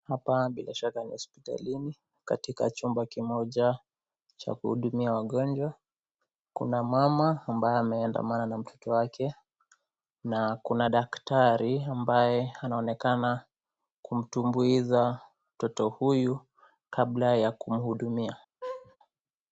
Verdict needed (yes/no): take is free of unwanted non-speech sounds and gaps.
no